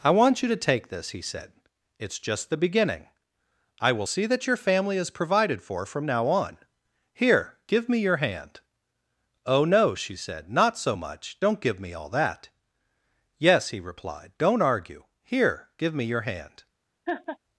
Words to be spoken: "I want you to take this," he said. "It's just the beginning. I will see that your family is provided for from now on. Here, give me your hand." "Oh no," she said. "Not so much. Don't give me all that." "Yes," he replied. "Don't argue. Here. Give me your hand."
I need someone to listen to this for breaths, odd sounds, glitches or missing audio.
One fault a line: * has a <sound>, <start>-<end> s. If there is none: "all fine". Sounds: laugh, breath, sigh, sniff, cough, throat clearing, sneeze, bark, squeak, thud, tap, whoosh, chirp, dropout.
* has a laugh, 17.1-17.4 s